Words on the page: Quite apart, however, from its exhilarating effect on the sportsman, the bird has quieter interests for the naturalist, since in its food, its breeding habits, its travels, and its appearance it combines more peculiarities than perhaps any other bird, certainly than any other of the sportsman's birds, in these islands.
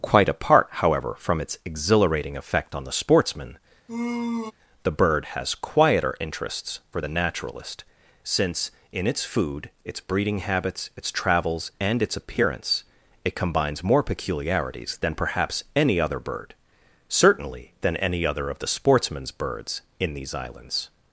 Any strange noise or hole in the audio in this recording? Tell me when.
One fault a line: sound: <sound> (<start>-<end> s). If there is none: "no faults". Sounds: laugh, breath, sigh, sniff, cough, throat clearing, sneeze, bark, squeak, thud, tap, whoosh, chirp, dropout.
sound: sigh (3.9-4.5 s)